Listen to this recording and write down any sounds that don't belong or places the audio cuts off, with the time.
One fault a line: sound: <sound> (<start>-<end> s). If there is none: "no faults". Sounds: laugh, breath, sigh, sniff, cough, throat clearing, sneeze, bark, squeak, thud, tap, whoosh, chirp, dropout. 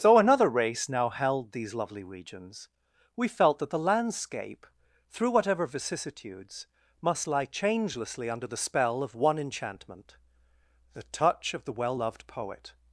no faults